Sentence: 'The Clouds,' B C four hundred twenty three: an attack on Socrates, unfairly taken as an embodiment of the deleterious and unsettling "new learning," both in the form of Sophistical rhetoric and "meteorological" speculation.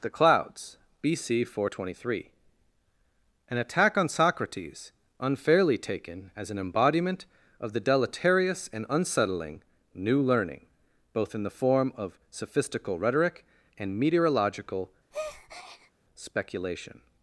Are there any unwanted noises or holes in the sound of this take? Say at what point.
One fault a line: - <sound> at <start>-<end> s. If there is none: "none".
- breath at 15.1-15.9 s